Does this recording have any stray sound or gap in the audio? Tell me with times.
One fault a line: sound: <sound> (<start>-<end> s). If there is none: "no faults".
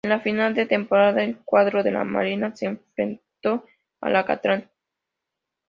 no faults